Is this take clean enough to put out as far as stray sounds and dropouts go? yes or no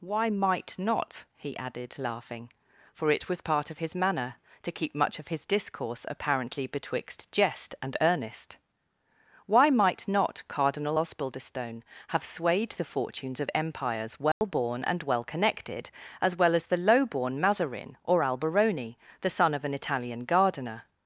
no